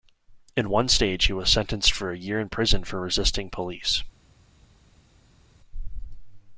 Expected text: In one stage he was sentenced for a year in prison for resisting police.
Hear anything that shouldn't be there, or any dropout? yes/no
no